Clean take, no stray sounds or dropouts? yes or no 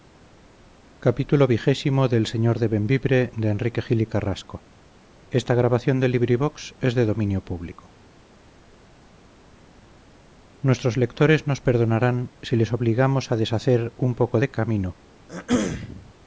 no